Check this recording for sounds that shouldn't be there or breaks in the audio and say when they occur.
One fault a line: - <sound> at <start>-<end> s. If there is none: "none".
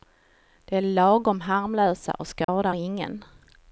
- dropout at 2.4-2.5 s